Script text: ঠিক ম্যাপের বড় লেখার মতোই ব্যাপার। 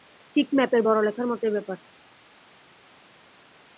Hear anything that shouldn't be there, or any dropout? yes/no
no